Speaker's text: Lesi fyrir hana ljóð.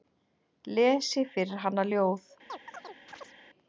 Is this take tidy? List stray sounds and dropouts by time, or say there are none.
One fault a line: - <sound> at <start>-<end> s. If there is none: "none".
- chirp at 2.5-3.3 s